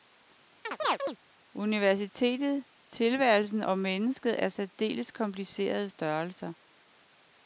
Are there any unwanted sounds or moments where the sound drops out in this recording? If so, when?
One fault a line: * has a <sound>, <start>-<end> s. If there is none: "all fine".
* has a chirp, 0.6-1.2 s